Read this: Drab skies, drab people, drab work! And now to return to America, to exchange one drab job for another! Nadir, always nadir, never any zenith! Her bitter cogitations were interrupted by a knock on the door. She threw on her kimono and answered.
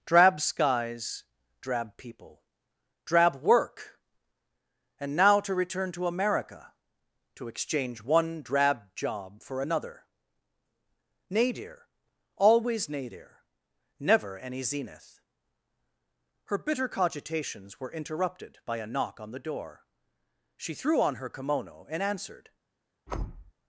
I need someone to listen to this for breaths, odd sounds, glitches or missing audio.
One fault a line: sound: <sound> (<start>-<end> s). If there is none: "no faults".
sound: thud (23.1-23.5 s)